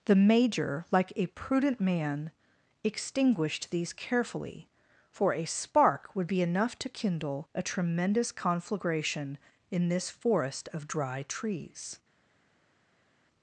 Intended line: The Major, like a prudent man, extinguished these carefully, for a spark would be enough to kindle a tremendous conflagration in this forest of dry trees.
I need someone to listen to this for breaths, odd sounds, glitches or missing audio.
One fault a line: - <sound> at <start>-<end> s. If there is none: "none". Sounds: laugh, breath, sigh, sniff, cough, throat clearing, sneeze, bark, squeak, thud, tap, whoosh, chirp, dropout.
none